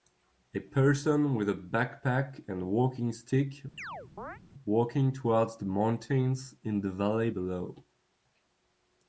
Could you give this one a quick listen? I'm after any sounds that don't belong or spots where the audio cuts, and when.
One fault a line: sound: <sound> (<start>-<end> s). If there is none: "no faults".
sound: chirp (3.8-4.4 s)